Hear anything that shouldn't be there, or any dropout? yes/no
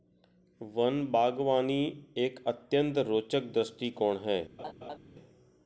yes